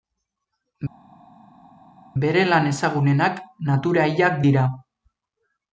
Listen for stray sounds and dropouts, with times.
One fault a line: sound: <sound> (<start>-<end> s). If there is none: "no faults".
no faults